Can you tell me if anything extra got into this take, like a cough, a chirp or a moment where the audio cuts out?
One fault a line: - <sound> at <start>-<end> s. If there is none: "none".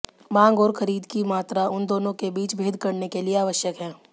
none